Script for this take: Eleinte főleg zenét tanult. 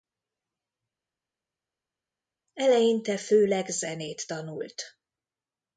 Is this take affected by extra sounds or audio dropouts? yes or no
no